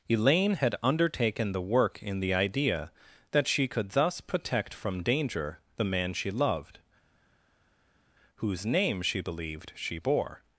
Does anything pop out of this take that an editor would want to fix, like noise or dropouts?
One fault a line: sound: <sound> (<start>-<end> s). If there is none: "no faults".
no faults